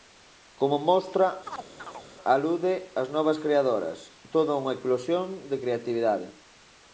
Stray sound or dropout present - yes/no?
yes